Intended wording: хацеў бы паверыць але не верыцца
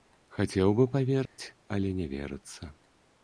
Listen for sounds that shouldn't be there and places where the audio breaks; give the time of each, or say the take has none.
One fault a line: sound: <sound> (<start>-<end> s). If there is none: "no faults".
sound: dropout (1.3-1.4 s)